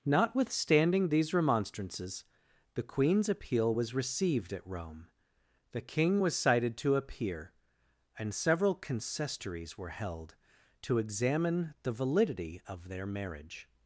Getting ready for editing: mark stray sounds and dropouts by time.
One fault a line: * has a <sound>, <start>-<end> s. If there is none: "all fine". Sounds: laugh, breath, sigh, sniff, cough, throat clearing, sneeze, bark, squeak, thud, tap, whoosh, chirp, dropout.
all fine